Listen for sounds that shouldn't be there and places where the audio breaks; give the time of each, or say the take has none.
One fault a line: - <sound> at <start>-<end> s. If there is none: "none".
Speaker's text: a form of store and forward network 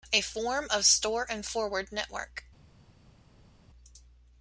none